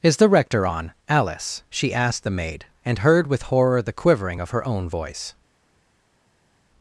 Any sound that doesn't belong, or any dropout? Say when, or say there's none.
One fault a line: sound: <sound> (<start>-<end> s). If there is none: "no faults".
no faults